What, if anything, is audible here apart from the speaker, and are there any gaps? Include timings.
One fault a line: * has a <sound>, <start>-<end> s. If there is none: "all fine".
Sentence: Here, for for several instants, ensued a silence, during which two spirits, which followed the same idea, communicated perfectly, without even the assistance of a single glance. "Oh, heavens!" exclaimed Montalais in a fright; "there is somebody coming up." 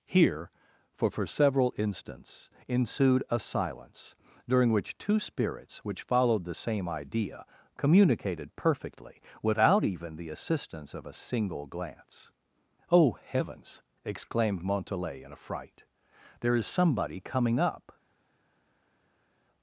all fine